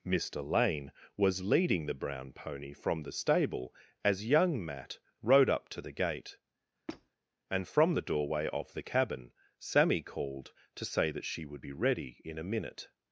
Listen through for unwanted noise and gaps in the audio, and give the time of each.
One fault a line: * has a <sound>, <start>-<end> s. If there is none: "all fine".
* has a squeak, 6.9-7.1 s